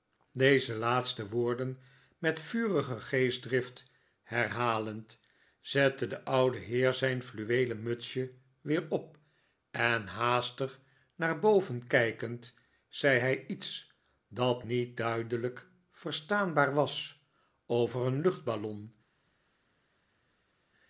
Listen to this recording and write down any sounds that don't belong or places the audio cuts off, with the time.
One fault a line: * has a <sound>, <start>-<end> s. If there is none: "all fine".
all fine